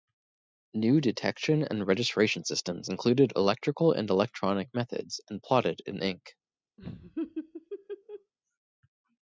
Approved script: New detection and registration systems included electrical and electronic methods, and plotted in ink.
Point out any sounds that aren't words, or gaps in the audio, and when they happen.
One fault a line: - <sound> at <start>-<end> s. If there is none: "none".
- laugh at 6.8-8.3 s